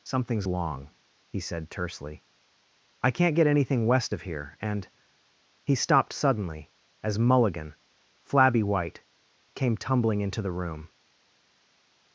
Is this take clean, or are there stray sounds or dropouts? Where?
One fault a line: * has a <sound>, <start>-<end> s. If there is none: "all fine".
all fine